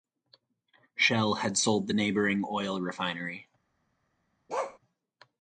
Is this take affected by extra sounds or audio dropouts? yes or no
yes